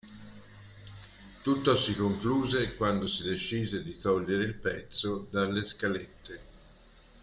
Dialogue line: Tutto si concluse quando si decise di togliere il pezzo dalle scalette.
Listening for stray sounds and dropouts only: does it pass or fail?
pass